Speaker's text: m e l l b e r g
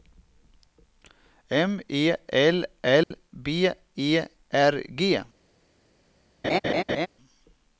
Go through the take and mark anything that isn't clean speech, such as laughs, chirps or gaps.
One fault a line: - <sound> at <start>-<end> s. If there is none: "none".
- dropout at 3.0-3.1 s
- laugh at 6.4-7.1 s